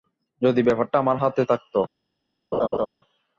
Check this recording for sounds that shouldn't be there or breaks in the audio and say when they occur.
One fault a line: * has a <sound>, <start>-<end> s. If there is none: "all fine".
* has a laugh, 2.5-2.9 s